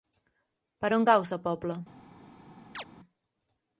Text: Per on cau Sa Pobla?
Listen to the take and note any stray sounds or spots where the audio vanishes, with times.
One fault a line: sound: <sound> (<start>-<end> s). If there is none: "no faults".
sound: chirp (2.7-2.8 s)